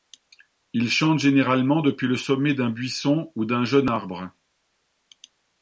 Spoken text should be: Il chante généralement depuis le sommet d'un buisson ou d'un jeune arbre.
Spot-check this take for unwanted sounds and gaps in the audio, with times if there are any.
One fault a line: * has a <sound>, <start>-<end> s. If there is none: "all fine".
all fine